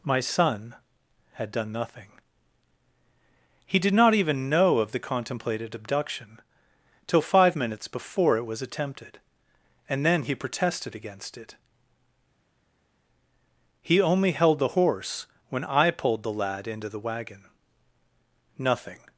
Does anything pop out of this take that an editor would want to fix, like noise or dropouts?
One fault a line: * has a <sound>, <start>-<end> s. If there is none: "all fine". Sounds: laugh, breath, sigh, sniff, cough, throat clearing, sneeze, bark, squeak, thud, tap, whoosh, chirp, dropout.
all fine